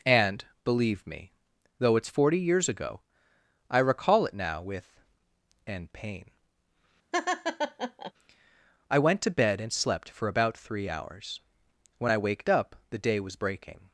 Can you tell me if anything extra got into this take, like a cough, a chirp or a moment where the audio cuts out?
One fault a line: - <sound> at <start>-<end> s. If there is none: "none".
- laugh at 7.1-8.1 s